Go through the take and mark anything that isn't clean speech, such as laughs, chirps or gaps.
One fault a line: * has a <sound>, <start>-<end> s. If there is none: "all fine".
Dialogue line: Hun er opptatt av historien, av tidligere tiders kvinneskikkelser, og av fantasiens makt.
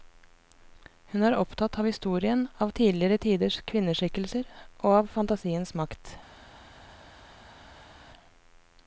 all fine